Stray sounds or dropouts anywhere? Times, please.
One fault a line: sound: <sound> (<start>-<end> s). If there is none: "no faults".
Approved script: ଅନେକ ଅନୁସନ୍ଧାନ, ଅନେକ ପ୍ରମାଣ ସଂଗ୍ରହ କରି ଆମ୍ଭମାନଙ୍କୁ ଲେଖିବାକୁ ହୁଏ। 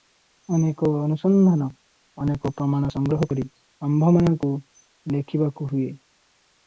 no faults